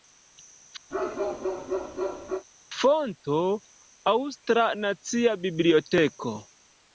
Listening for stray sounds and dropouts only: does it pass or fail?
fail